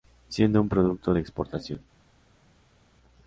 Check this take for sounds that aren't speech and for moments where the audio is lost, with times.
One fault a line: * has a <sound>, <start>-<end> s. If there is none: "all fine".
all fine